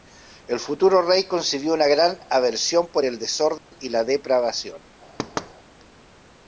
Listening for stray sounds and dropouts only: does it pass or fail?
fail